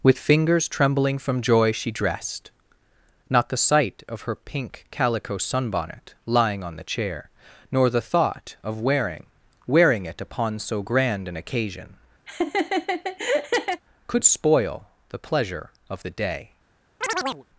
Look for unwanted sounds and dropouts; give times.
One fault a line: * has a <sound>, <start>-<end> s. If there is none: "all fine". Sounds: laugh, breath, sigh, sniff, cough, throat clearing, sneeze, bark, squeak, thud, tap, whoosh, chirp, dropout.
* has a laugh, 12.3-13.8 s
* has a chirp, 17.0-17.4 s